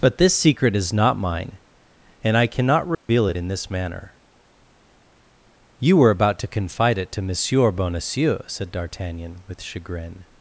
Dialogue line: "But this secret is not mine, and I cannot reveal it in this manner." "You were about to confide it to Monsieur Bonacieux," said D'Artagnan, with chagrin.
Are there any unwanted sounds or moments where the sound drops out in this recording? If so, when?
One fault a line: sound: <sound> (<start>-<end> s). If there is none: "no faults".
sound: dropout (2.9-3.1 s)